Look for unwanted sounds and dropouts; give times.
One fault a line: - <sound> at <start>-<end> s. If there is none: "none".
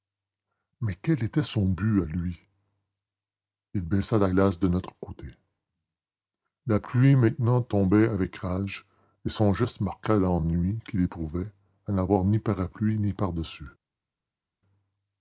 none